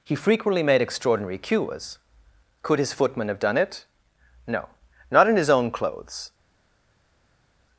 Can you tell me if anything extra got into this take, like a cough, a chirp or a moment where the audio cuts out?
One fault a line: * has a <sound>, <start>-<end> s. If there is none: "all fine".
all fine